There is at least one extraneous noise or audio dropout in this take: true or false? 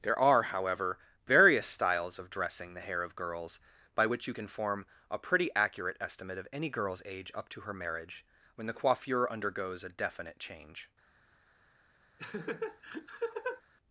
true